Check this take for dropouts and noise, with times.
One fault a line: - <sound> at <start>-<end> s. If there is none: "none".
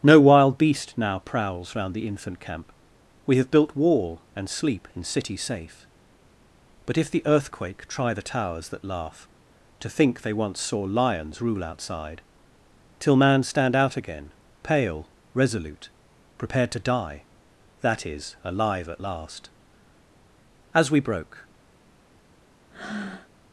- breath at 22.7-23.3 s